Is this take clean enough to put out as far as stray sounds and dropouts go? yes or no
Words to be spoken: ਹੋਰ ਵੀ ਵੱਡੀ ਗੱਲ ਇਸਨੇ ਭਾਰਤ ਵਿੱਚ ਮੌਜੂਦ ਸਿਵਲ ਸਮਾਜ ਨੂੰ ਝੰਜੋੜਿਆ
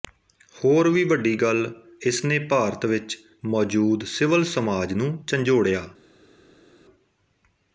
yes